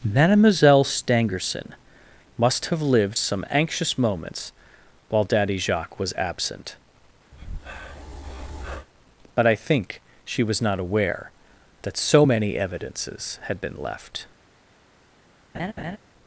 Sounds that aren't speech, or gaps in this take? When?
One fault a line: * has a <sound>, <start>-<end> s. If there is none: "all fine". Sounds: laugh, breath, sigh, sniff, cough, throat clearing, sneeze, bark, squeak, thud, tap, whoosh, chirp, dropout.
* has a breath, 7.3-8.9 s
* has a laugh, 15.5-16.0 s